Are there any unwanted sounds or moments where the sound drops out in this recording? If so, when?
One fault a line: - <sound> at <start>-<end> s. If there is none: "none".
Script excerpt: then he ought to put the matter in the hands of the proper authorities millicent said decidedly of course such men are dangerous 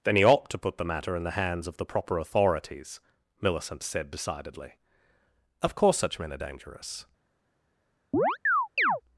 - chirp at 8.1-9.0 s